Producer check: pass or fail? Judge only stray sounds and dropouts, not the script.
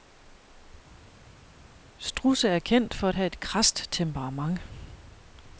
pass